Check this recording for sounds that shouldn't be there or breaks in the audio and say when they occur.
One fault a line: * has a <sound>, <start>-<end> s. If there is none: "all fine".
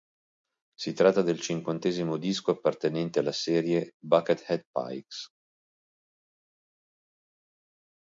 all fine